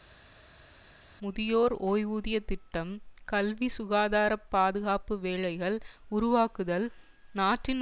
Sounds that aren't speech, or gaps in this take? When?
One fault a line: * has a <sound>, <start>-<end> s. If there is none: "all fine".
all fine